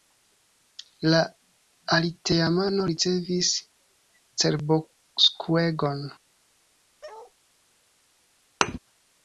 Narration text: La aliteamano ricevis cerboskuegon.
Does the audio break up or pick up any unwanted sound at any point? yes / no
yes